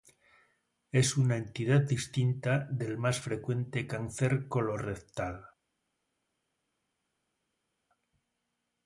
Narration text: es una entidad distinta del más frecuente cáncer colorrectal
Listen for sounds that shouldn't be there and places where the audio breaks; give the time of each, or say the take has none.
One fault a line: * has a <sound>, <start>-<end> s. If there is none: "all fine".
all fine